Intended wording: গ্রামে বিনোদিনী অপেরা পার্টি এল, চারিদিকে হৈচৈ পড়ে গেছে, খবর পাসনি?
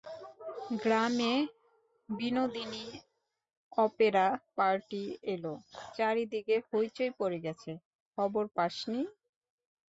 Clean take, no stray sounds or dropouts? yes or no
yes